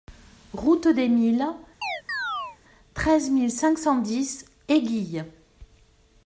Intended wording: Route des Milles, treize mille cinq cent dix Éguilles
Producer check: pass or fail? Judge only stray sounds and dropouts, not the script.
fail